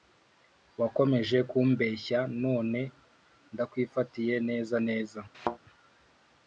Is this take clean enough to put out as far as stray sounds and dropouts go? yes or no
no